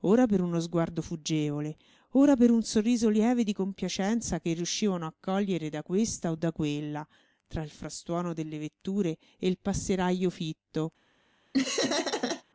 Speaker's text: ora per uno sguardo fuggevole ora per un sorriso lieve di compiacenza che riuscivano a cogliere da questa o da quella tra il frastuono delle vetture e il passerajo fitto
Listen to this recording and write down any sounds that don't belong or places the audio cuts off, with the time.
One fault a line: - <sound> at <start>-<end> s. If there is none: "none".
- laugh at 11.5-12.4 s